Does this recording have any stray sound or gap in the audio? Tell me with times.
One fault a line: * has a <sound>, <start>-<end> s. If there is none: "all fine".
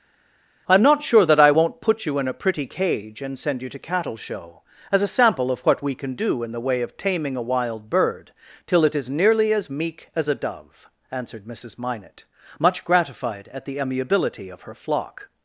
all fine